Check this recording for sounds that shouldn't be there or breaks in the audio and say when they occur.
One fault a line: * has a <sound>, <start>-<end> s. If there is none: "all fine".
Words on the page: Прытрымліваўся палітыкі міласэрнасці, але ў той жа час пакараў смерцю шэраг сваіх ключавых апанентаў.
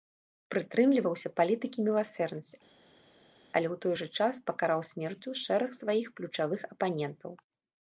all fine